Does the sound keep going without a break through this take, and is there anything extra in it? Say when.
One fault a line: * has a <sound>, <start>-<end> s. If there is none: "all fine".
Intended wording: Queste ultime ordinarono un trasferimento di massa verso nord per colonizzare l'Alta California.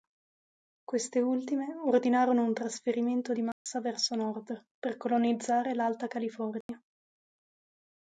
* has a dropout, 3.5-3.7 s
* has a dropout, 6.6-6.7 s